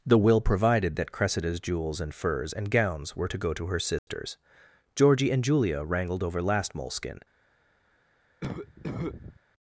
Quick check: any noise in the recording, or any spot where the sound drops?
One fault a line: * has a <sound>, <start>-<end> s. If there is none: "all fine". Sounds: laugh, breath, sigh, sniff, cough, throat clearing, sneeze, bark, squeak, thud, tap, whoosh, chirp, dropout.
* has a dropout, 4.0-4.1 s
* has a cough, 8.4-9.4 s